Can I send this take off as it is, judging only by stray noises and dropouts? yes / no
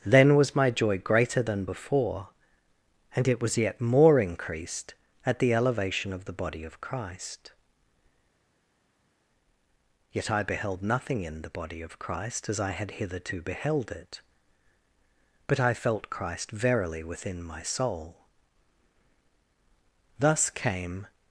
yes